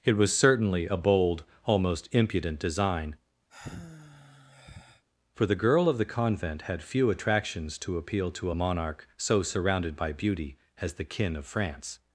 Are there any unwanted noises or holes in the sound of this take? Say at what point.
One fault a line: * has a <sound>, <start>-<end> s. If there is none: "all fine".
* has a sigh, 3.5-5.0 s